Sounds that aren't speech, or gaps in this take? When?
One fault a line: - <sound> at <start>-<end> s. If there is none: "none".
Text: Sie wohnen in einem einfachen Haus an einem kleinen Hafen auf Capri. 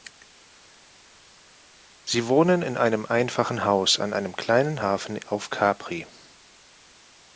none